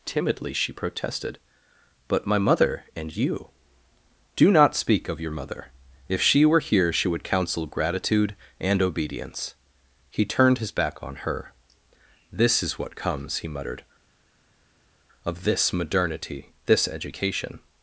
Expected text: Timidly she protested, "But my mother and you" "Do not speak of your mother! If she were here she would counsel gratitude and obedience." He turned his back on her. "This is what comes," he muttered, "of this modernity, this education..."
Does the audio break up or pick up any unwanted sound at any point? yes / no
no